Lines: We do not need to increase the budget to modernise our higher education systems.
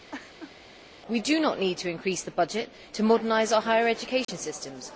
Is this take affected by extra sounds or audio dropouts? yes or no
yes